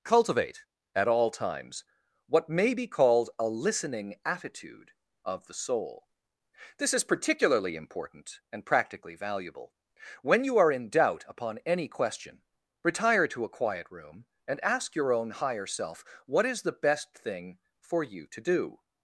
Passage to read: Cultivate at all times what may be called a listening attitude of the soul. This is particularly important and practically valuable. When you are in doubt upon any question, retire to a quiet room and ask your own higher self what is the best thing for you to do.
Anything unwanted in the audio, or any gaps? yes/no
no